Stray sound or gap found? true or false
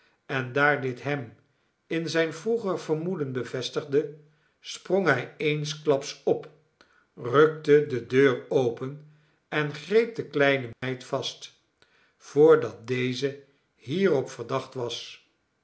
true